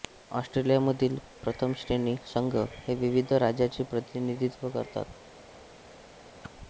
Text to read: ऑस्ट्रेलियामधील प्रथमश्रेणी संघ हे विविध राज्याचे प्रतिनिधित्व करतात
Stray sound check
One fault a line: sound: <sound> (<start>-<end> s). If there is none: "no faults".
sound: whoosh (6.4-6.5 s)